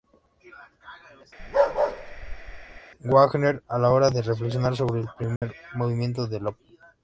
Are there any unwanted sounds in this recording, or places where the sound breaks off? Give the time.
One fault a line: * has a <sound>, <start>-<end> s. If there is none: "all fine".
* has a bark, 1.4-2.8 s
* has a dropout, 5.4-5.4 s